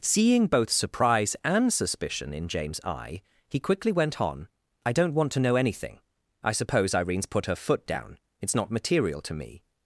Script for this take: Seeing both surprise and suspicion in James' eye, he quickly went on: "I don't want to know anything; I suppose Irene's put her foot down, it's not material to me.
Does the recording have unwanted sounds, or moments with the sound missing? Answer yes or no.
no